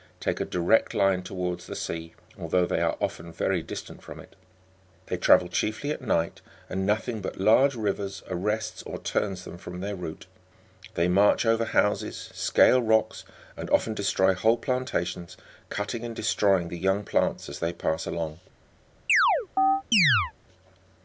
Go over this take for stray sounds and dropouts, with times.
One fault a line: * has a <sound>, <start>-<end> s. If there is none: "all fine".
* has a chirp, 19.1-20.3 s